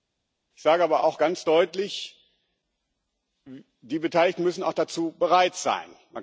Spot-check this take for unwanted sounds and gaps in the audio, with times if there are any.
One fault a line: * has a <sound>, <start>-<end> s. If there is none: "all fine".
all fine